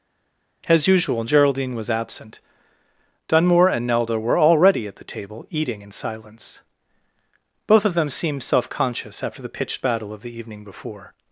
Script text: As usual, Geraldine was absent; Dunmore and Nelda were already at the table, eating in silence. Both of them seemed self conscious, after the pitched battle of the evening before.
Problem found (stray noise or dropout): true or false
false